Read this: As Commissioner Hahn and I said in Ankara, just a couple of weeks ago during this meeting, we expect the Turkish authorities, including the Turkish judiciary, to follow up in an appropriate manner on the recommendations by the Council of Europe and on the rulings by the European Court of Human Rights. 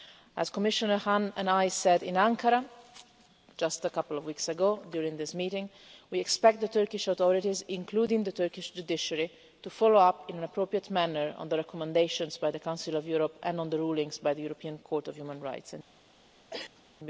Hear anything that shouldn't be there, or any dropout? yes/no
yes